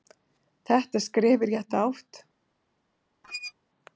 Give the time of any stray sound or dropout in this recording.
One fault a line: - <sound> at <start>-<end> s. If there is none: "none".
- squeak at 3.2-3.5 s